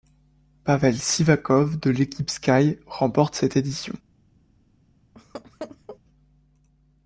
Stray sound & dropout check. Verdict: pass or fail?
fail